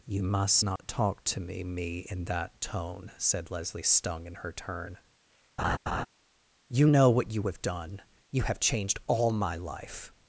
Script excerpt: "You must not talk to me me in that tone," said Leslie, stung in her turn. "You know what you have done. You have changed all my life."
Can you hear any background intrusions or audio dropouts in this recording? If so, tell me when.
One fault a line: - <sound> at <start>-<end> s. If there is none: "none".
- dropout at 0.8-0.8 s
- laugh at 5.6-6.1 s